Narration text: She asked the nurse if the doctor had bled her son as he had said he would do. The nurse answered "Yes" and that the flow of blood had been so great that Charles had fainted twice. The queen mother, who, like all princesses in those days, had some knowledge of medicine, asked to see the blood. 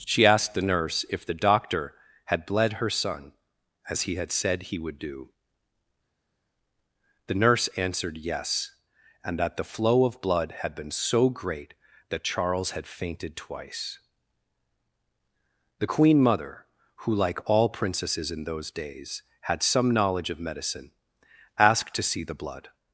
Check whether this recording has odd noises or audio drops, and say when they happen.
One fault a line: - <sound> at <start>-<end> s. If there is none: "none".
none